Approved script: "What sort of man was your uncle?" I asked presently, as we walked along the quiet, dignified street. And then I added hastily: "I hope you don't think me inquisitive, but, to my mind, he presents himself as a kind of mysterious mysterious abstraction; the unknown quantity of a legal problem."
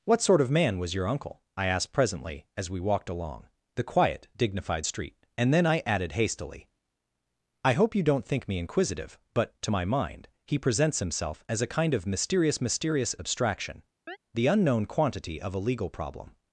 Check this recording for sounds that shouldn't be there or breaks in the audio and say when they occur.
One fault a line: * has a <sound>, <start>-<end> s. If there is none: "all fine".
* has a chirp, 14.1-14.2 s